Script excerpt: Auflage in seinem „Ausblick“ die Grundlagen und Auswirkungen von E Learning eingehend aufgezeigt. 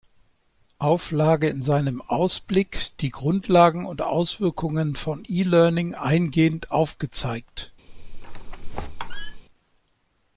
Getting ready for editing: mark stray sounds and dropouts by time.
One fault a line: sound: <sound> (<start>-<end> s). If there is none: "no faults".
sound: squeak (7.9-9.4 s)